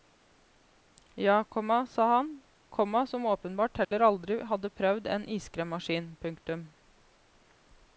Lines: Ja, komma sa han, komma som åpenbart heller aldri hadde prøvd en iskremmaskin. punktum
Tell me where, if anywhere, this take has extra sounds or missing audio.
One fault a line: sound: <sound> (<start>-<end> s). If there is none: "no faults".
sound: dropout (3.8-3.9 s)